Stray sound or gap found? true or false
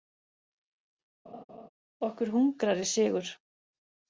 true